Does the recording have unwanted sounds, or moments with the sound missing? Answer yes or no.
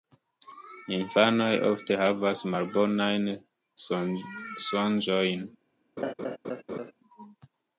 yes